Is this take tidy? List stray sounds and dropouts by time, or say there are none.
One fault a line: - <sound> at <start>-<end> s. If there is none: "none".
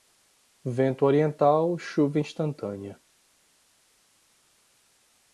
none